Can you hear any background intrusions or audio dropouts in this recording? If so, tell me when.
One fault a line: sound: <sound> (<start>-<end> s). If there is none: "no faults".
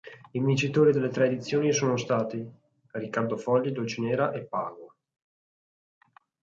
no faults